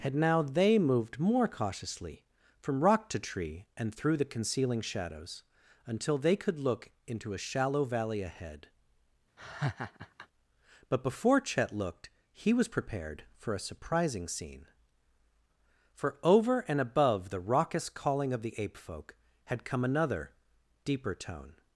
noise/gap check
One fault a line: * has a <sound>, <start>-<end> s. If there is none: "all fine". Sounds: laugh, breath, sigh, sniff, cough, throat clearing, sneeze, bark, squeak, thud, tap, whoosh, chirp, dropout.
* has a laugh, 9.4-10.3 s